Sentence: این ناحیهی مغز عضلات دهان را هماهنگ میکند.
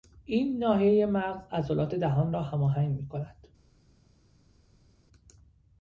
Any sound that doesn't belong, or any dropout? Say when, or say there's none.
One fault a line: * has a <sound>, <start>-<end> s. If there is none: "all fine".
all fine